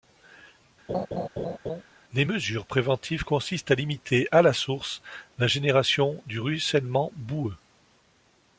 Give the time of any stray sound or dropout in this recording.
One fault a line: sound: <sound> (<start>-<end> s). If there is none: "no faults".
sound: laugh (0.9-1.8 s)